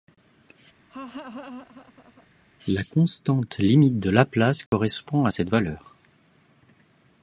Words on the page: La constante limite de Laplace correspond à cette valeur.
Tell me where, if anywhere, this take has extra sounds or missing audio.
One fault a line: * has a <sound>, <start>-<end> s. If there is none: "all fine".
* has a laugh, 0.9-2.3 s
* has a dropout, 4.7-4.7 s